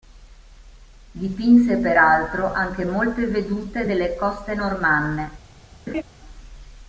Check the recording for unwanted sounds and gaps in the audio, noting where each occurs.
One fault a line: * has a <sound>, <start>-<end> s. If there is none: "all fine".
* has a laugh, 5.9-6.0 s